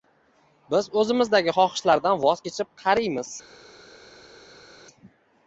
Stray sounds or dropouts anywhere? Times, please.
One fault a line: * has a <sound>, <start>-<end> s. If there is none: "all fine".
all fine